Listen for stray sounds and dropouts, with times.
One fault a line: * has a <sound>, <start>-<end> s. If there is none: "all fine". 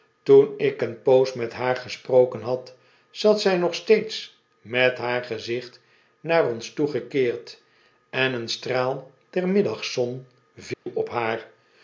* has a dropout, 10.7-10.9 s